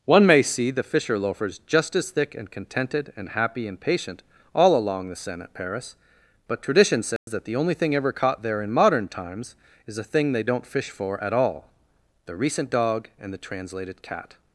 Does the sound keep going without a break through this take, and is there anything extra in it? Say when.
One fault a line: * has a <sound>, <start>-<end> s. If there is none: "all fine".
* has a dropout, 7.2-7.3 s